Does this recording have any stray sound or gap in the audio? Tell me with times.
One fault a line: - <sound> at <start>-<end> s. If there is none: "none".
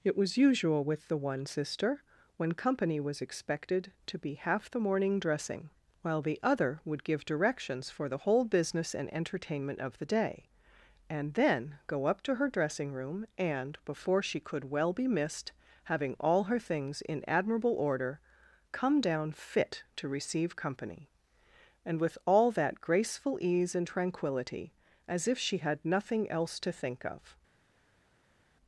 none